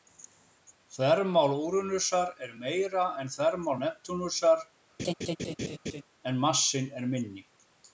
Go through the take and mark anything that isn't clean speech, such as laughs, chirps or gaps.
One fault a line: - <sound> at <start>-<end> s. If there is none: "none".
- laugh at 5.0-6.0 s